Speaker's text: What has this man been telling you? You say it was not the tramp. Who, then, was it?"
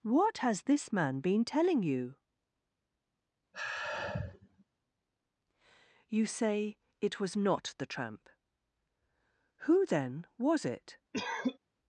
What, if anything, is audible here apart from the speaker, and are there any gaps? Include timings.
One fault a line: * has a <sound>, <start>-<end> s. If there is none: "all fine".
* has a sigh, 3.5-4.6 s
* has a cough, 11.1-11.6 s